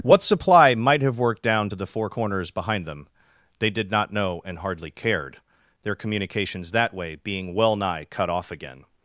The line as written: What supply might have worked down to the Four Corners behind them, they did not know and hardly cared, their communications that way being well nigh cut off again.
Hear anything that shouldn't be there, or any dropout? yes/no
no